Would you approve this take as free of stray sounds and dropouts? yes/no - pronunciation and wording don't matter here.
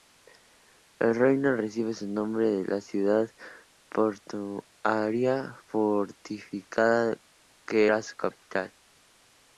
yes